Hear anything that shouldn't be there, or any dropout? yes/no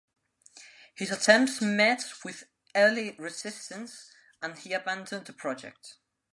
no